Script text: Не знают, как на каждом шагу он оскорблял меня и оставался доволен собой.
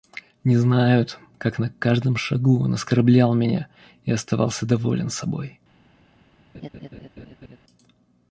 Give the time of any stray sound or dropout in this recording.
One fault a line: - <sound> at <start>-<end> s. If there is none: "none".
- laugh at 6.5-7.6 s